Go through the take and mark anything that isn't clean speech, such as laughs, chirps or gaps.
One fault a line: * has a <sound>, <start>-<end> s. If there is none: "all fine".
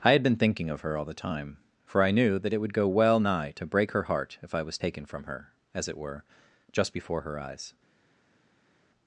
all fine